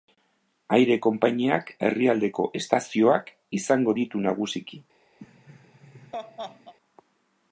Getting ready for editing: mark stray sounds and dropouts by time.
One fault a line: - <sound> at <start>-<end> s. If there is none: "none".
- laugh at 5.2-6.7 s